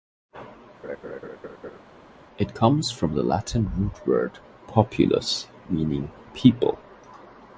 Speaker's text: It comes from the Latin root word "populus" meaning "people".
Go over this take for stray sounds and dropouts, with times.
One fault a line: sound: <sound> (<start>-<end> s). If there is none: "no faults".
sound: laugh (0.8-1.8 s)